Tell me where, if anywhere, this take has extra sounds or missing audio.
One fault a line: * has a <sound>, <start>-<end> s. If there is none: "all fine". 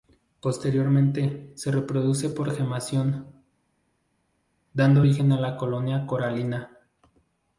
all fine